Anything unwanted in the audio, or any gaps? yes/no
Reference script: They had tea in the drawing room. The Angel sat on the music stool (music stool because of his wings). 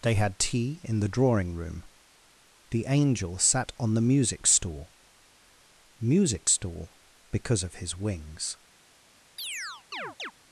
yes